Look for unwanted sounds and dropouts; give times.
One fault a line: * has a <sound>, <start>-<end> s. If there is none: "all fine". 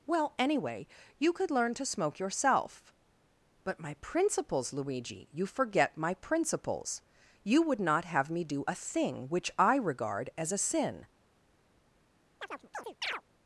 * has a chirp, 12.4-13.2 s